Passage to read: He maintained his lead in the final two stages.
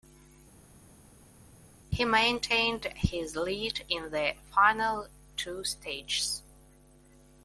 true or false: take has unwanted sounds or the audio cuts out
false